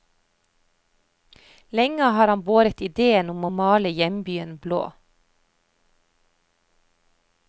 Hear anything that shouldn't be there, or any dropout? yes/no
no